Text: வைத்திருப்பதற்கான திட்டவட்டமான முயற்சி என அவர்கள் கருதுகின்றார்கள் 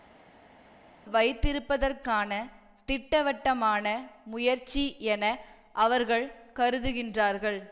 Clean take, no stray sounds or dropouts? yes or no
yes